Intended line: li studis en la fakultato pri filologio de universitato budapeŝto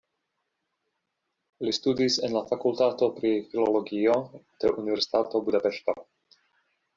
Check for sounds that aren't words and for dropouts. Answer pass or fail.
pass